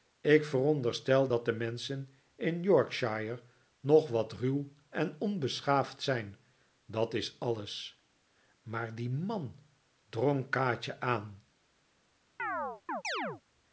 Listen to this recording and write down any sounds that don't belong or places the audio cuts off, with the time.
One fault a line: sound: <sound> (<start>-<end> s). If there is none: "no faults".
sound: chirp (12.4-13.4 s)